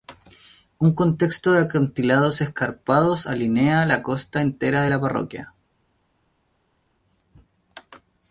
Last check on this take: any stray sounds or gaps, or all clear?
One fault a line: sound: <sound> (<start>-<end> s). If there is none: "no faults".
no faults